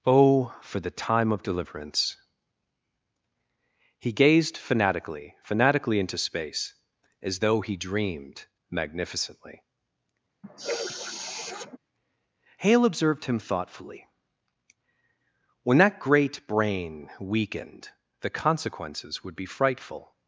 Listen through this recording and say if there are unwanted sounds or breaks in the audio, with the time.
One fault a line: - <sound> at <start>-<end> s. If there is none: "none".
- sniff at 10.4-11.8 s